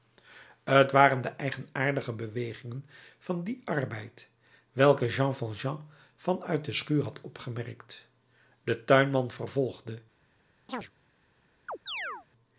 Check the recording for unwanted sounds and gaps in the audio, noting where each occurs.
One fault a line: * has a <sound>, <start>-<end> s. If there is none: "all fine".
* has a chirp, 10.7-10.9 s
* has a chirp, 11.7-12.3 s